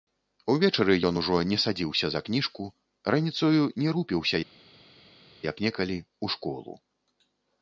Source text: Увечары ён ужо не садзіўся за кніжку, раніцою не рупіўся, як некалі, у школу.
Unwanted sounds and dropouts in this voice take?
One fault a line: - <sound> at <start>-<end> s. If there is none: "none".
none